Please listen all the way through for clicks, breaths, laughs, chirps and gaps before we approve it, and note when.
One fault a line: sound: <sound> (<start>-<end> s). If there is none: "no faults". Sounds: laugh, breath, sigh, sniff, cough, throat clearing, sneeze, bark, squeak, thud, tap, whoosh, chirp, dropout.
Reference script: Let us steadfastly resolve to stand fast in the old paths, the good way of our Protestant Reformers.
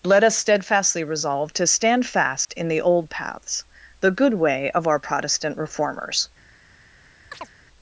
sound: dropout (2.4-2.5 s)
sound: chirp (7.3-7.5 s)